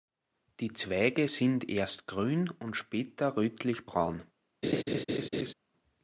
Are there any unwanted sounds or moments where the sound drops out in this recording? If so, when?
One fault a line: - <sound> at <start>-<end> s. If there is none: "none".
- laugh at 4.6-5.5 s